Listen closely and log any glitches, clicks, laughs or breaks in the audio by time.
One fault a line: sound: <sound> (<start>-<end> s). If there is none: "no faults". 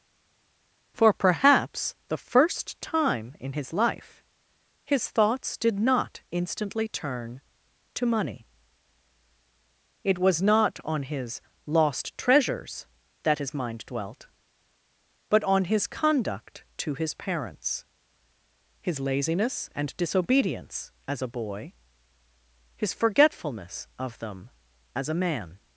no faults